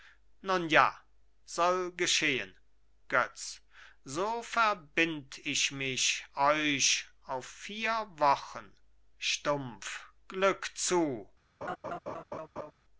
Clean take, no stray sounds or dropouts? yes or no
no